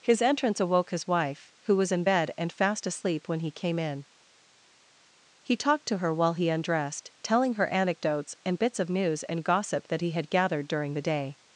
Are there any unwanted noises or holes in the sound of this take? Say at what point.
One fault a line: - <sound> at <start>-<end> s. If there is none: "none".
none